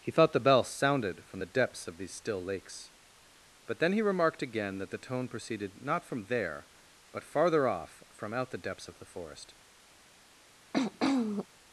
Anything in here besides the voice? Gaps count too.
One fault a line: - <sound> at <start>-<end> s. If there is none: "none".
- throat clearing at 10.7-11.5 s